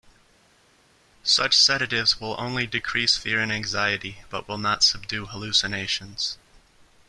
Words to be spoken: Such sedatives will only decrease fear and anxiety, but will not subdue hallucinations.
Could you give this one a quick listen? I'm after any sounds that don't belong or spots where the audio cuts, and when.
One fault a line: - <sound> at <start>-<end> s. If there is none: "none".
none